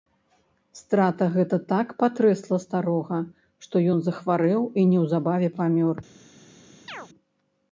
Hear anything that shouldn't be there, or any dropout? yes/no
yes